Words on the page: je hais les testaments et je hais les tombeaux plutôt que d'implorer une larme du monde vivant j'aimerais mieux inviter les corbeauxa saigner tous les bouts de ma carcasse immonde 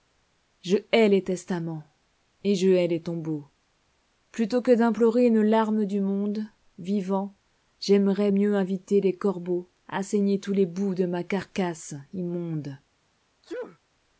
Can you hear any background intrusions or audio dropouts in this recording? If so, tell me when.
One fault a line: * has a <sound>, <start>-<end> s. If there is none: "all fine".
* has a sneeze, 13.4-13.8 s